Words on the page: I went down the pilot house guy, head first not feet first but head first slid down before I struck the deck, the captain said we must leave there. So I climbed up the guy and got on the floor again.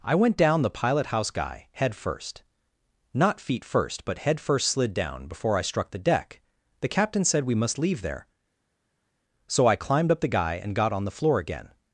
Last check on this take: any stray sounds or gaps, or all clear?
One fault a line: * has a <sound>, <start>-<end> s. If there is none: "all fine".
all fine